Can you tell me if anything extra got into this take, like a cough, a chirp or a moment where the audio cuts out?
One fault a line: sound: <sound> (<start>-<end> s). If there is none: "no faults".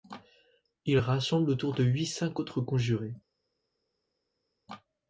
no faults